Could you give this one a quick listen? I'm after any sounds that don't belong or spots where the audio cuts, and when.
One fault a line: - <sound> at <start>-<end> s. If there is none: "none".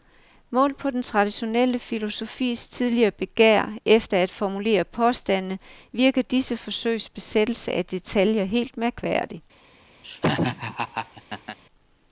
- laugh at 10.0-11.6 s